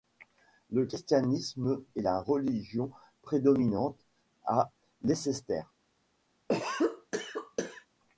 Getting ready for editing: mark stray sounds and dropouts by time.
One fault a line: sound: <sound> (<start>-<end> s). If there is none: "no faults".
sound: cough (6.5-7.9 s)